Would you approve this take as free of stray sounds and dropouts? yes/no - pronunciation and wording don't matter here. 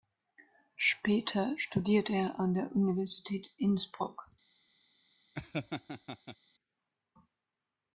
no